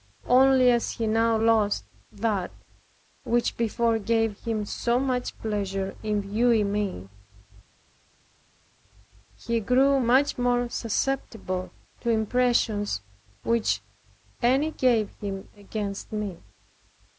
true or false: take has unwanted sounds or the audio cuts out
false